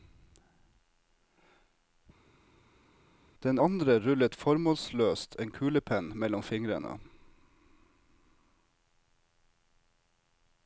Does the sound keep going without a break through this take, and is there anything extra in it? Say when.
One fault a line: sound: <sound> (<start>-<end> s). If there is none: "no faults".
no faults